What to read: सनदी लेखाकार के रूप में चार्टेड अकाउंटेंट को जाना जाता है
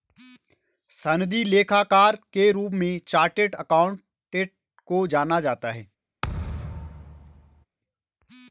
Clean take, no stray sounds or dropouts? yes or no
no